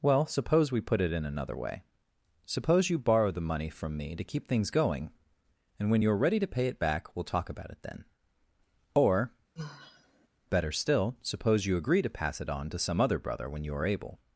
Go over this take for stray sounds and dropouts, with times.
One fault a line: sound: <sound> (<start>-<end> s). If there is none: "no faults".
sound: sigh (9.5-10.3 s)